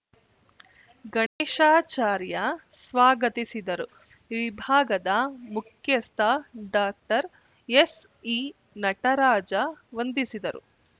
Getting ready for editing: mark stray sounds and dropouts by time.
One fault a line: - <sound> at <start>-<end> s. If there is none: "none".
- dropout at 1.3-1.4 s